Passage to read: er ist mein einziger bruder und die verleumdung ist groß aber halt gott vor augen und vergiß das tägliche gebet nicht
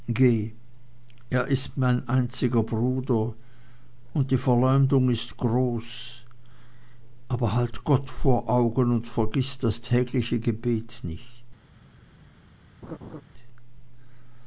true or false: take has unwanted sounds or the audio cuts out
true